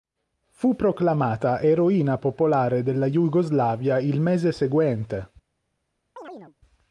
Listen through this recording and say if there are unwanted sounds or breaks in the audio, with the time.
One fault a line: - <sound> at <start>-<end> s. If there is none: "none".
- chirp at 6.2-6.6 s